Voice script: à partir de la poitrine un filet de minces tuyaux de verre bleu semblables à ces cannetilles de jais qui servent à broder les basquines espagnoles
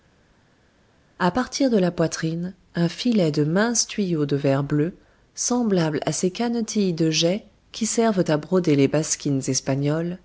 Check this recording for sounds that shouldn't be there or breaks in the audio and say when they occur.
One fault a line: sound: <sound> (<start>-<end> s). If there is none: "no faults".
no faults